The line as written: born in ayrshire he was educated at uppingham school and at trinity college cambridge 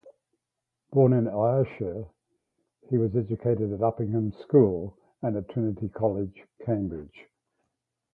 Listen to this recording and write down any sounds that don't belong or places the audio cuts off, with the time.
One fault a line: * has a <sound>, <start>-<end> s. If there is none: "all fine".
all fine